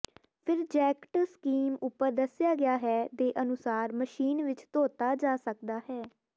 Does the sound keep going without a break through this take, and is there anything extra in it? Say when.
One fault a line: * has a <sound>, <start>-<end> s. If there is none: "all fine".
all fine